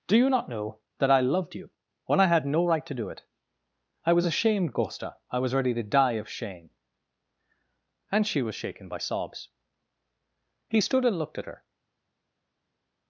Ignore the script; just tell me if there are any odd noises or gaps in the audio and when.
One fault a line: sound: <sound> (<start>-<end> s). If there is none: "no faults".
no faults